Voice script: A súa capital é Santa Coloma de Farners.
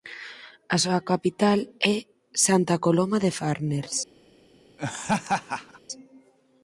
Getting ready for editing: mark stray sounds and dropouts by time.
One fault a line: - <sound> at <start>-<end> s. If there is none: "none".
- laugh at 4.8-5.8 s